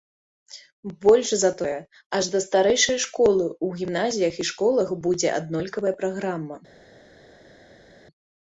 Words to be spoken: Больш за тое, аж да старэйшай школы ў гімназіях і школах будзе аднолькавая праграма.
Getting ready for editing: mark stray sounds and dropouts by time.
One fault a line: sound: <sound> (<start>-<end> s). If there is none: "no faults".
no faults